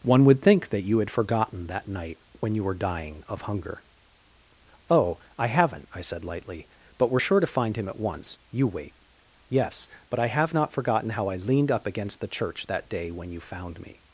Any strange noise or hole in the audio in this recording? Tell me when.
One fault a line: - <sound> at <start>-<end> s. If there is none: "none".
none